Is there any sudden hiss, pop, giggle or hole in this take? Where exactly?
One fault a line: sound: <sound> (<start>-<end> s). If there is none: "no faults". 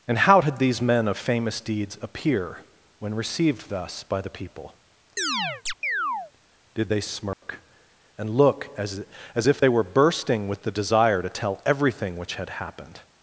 sound: chirp (5.2-6.3 s)
sound: dropout (7.3-7.4 s)